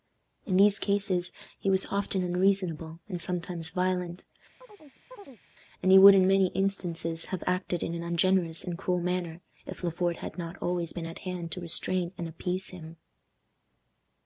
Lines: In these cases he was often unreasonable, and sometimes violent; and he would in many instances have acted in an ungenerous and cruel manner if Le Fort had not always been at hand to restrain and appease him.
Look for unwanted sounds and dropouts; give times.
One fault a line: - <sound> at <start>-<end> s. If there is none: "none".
- chirp at 4.6-5.4 s